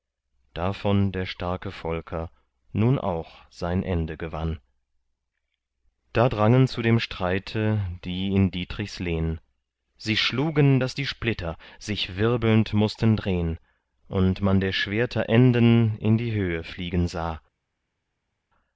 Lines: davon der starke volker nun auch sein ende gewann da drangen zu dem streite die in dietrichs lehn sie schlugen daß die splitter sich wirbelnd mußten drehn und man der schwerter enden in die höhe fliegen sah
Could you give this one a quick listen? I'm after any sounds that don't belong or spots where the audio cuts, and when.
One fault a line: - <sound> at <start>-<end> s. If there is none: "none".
none